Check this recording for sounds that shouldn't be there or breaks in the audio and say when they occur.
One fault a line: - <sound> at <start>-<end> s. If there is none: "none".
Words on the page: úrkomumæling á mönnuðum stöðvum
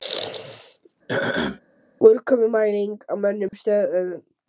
- throat clearing at 1.1-1.6 s
- dropout at 3.5-3.5 s